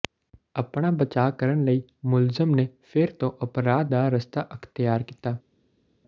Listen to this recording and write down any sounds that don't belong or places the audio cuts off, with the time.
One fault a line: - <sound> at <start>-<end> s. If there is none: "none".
none